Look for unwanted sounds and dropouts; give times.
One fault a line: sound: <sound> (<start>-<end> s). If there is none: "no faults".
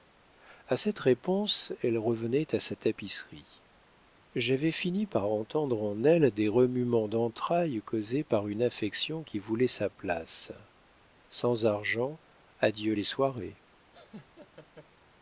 sound: laugh (13.9-14.9 s)